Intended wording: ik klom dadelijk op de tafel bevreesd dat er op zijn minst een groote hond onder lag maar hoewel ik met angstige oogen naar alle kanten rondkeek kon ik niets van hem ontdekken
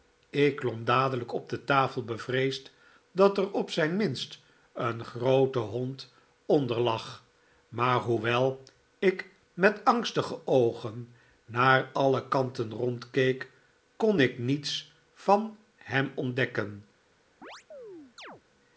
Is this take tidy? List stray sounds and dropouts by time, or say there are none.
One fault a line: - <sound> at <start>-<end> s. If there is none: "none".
- chirp at 17.4-18.4 s